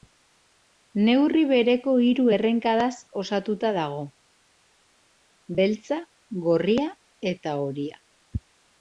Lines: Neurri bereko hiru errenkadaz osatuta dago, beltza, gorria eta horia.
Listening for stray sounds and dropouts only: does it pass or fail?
pass